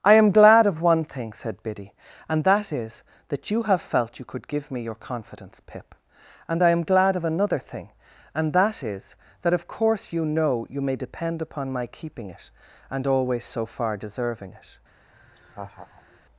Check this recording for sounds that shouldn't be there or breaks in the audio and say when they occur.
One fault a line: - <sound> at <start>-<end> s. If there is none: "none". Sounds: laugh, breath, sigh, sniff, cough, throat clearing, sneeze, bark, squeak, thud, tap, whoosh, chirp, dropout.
- laugh at 15.1-16.2 s